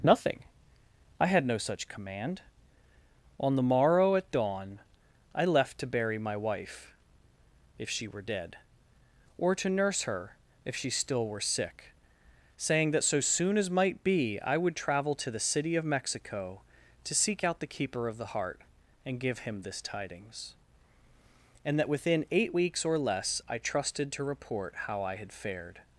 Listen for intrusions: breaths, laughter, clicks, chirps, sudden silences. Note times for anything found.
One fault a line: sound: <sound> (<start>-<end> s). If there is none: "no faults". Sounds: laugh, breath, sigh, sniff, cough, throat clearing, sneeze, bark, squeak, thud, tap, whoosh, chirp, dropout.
no faults